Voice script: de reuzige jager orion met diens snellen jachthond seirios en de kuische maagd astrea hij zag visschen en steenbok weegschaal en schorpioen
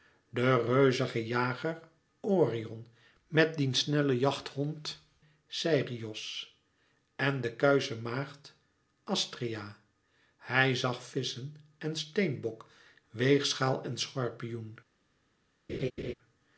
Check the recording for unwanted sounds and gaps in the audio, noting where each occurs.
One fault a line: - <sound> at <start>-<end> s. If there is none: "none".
- laugh at 15.7-16.1 s